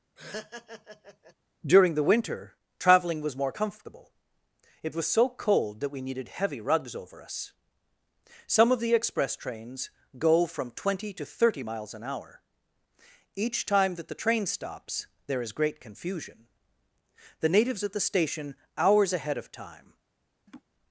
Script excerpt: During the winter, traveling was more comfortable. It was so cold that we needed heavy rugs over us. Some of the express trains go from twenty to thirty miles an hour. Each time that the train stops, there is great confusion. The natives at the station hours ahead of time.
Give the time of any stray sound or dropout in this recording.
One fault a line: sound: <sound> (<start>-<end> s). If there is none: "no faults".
sound: laugh (0.2-1.3 s)
sound: laugh (20.5-20.6 s)